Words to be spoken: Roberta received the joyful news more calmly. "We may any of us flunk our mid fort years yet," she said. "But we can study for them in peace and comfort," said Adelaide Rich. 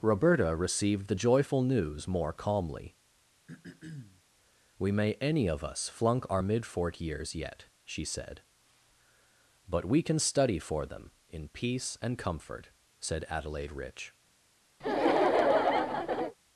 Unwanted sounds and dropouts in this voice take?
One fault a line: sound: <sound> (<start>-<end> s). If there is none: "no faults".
sound: throat clearing (3.5-4.2 s)
sound: laugh (14.8-16.4 s)